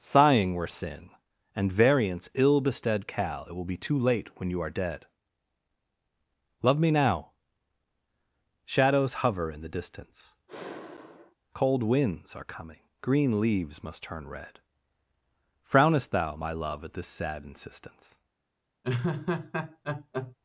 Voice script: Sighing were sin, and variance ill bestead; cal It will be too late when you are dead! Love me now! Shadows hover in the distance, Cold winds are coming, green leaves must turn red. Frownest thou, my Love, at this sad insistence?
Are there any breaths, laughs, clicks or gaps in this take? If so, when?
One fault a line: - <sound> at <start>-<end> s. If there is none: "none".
- sigh at 10.5-11.4 s
- laugh at 18.8-20.4 s